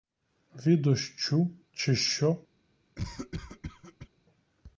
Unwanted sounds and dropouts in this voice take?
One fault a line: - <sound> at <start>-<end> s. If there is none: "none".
- cough at 3.0-4.1 s